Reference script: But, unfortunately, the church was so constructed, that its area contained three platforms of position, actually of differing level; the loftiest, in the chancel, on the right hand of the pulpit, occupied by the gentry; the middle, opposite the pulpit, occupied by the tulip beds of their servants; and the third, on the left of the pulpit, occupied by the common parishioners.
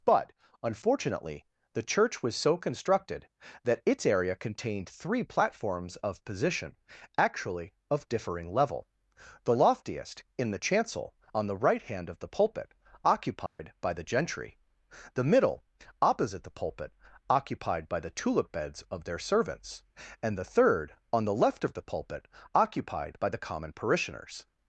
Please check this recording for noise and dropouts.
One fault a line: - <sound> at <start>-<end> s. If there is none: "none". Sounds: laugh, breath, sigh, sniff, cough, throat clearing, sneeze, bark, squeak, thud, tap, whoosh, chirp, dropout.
- dropout at 13.5-13.6 s